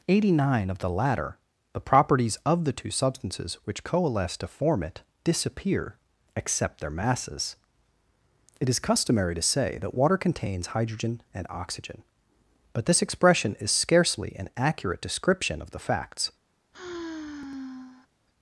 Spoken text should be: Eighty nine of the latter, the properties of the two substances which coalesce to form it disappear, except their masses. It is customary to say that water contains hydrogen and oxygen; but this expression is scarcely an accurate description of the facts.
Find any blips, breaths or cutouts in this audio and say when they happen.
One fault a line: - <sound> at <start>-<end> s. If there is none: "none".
- sigh at 16.7-18.1 s